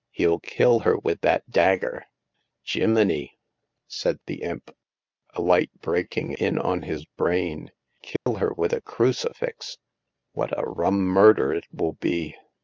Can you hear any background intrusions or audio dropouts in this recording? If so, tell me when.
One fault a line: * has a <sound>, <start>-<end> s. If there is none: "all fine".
* has a dropout, 8.2-8.3 s